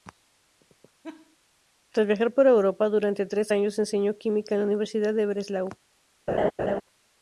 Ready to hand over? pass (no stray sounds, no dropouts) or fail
fail